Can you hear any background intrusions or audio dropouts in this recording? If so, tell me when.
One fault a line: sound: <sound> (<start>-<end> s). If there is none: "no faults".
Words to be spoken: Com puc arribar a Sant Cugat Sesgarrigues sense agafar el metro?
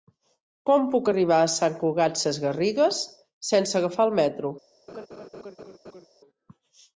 sound: laugh (4.9-6.1 s)